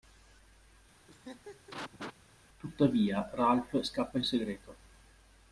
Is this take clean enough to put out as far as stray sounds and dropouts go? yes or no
no